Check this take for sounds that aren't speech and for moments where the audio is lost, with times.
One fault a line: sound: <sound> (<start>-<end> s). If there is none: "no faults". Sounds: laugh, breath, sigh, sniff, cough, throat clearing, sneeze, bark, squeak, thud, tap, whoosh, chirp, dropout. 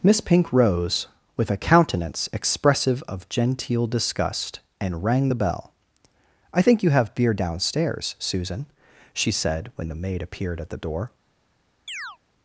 sound: chirp (11.9-12.2 s)